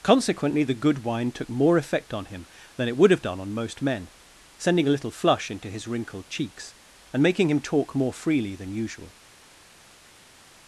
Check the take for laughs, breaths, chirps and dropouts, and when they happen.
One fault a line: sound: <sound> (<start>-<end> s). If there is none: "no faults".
no faults